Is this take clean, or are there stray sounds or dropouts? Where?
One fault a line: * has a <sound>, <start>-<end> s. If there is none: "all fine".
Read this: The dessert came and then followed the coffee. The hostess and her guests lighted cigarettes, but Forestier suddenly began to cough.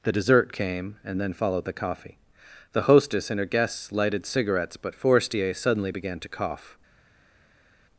all fine